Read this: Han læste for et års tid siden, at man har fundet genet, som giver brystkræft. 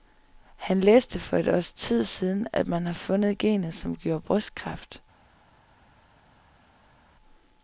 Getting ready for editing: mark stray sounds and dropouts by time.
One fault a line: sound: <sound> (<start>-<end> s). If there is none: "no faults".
no faults